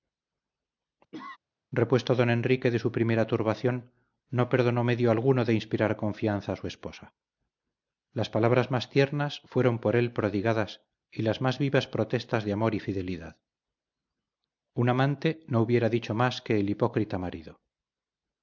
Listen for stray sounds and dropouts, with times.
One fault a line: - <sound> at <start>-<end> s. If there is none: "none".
- cough at 1.1-1.4 s